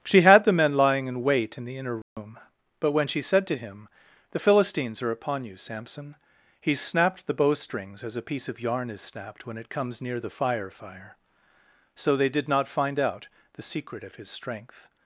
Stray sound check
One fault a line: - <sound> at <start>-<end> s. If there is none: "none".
- dropout at 2.0-2.2 s